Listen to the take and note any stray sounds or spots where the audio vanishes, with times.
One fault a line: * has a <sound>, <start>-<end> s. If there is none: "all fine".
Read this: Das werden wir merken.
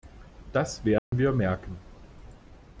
* has a dropout, 1.0-1.1 s